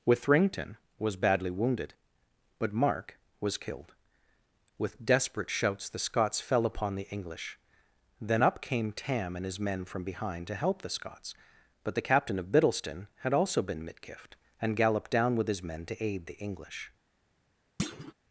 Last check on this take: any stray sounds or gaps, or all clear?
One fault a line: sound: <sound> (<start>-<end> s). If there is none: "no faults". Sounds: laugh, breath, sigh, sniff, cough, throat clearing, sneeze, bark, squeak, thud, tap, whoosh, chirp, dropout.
sound: thud (17.8-18.1 s)